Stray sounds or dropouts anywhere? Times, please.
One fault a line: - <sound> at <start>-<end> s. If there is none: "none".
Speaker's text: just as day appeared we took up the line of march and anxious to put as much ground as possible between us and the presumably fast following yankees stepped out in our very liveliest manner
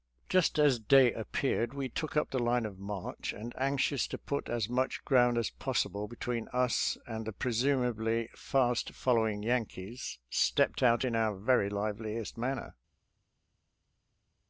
none